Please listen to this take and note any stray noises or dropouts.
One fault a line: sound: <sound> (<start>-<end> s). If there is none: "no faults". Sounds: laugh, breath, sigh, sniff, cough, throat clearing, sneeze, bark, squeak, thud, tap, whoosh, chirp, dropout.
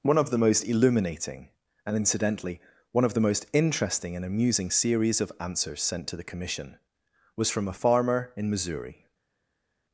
no faults